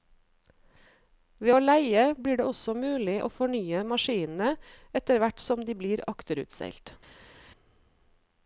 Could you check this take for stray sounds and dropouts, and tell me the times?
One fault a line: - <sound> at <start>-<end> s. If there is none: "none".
none